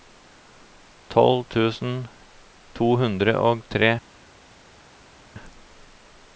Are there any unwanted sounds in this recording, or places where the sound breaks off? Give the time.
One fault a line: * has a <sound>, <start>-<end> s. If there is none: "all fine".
all fine